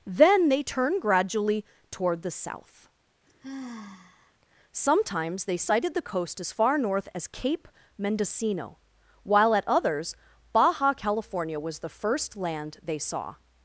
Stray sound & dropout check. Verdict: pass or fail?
fail